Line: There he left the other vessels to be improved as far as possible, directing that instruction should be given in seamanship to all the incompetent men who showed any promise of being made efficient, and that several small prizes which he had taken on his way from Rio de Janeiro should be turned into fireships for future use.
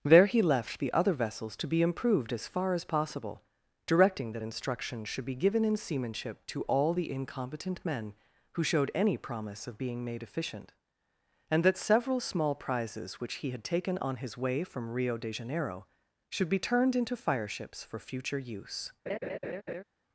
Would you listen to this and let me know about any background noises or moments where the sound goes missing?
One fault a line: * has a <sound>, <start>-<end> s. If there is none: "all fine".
* has a laugh, 19.1-19.8 s